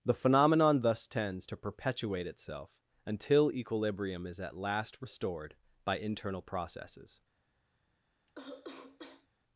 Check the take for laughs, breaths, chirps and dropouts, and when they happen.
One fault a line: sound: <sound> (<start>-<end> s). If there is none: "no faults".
sound: cough (8.3-9.3 s)